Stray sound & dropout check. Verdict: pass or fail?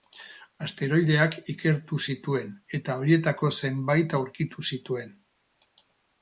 pass